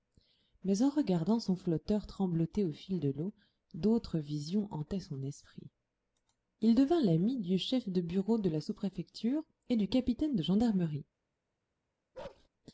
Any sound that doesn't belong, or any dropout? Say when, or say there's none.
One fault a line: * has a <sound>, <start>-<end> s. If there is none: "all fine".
* has a bark, 12.1-12.5 s